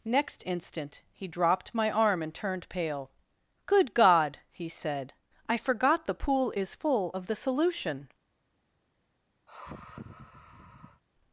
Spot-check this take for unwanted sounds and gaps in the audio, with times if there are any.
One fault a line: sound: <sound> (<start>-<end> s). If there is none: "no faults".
sound: sigh (9.5-11.0 s)